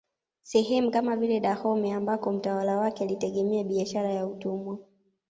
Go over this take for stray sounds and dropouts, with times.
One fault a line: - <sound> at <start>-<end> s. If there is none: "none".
none